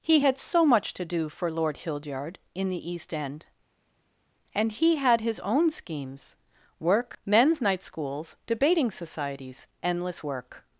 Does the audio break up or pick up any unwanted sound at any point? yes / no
no